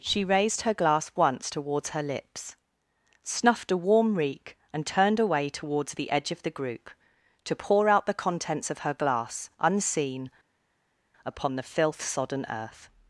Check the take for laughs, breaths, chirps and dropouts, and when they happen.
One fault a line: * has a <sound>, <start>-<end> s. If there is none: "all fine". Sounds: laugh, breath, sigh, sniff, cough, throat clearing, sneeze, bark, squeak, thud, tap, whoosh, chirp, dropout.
all fine